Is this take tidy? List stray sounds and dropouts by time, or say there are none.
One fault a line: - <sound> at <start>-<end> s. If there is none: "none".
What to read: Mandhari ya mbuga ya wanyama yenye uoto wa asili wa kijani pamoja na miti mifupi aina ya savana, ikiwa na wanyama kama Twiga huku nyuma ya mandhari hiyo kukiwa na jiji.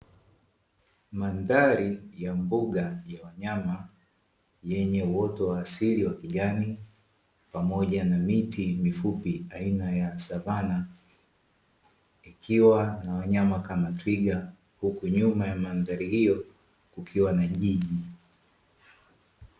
none